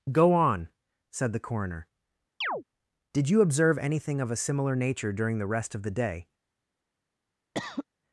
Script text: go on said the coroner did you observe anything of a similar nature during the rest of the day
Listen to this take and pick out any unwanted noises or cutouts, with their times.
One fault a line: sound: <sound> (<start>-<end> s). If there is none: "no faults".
sound: chirp (2.4-2.6 s)
sound: cough (7.5-7.9 s)